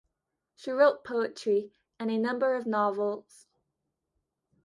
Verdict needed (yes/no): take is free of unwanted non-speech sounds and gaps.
yes